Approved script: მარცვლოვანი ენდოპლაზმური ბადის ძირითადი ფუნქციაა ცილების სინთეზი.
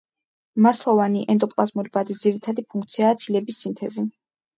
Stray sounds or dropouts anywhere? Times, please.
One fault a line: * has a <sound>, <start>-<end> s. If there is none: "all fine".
all fine